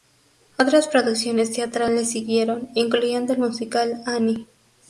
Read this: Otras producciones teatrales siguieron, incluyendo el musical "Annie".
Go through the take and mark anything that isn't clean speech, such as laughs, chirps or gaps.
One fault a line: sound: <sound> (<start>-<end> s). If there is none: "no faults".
no faults